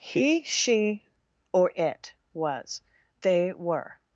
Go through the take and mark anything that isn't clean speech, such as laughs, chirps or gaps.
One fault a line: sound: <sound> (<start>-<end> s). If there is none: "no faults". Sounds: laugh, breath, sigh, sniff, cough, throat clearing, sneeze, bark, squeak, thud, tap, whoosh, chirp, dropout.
no faults